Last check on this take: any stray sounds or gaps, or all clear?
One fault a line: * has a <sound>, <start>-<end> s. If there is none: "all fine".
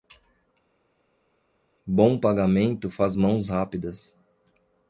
all fine